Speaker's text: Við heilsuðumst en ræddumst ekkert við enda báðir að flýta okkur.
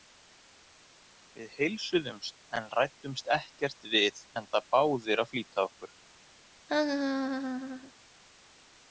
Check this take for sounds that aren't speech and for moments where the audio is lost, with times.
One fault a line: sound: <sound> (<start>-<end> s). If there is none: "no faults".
sound: laugh (6.7-7.9 s)